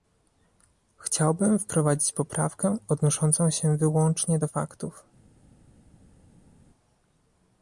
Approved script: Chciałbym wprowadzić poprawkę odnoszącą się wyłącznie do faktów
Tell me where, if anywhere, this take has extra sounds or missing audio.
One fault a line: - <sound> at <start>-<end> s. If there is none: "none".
none